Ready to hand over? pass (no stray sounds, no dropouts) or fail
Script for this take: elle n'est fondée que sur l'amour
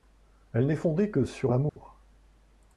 fail